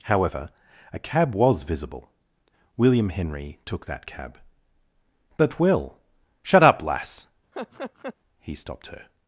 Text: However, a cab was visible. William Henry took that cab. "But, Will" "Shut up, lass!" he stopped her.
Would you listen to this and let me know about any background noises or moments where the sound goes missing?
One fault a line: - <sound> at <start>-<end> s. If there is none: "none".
- laugh at 7.5-8.1 s